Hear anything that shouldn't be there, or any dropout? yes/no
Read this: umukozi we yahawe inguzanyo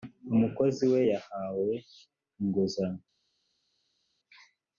no